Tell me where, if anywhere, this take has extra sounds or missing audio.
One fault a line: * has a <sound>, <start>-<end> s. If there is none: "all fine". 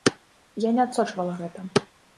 all fine